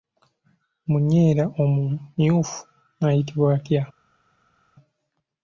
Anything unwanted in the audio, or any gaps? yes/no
no